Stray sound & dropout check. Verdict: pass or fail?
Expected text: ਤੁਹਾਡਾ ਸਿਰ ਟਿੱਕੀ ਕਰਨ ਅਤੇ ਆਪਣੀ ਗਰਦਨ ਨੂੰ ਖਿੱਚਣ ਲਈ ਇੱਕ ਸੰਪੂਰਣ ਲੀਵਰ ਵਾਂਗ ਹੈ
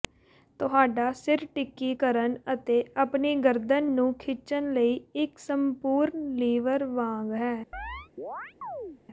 fail